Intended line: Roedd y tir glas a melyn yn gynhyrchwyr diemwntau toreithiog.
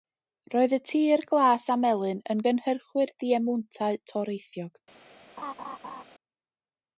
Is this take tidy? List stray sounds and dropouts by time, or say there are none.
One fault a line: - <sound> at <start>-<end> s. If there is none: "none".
- laugh at 5.4-6.0 s